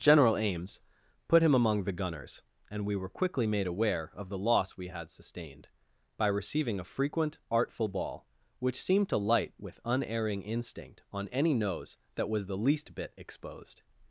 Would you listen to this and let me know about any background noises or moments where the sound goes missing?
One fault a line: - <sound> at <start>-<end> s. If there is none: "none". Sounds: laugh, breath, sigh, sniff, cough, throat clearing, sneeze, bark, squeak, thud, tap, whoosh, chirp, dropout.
none